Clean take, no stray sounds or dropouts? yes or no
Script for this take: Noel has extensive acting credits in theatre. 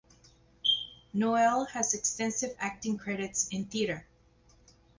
yes